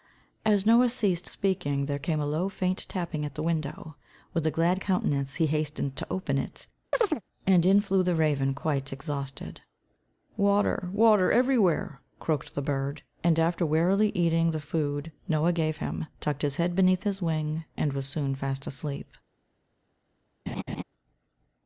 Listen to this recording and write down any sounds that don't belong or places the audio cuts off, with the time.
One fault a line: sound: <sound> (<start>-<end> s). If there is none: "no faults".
sound: chirp (6.9-7.2 s)
sound: laugh (20.5-20.8 s)